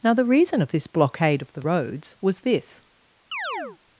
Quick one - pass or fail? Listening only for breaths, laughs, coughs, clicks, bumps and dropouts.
fail